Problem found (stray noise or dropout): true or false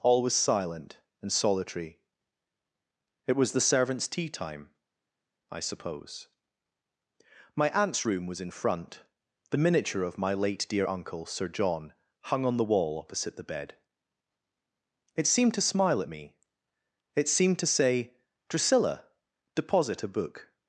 false